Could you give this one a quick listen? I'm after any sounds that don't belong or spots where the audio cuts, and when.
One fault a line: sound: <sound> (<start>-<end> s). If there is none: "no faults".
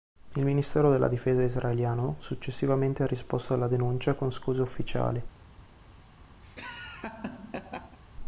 sound: laugh (6.4-8.0 s)